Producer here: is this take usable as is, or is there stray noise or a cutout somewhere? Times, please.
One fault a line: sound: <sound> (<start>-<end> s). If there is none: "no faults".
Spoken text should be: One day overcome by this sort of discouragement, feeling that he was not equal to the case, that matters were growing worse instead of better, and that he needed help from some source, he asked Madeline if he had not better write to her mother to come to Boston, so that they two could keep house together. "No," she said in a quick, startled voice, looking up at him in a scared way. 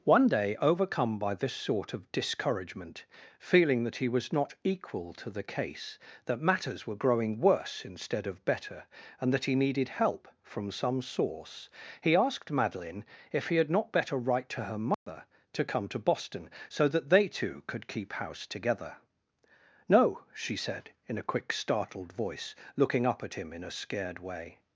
sound: dropout (14.9-15.1 s)